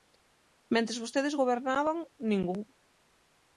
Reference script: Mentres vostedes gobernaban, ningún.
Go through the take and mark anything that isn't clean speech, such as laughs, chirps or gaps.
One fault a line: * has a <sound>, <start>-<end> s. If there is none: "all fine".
all fine